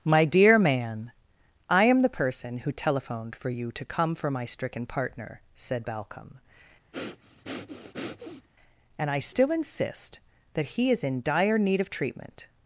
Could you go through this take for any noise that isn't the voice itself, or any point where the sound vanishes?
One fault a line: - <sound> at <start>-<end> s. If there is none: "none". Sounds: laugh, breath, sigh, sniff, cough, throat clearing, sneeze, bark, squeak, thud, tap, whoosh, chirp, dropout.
- breath at 6.9-8.5 s